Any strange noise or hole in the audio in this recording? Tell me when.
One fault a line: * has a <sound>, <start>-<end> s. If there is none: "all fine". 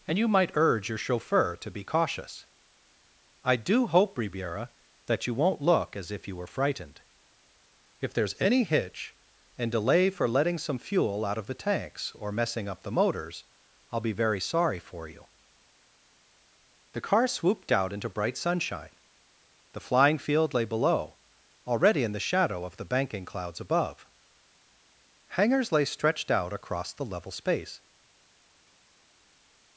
all fine